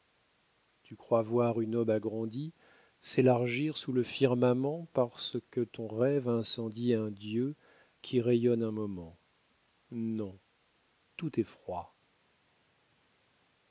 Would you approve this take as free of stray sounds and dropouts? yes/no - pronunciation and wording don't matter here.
yes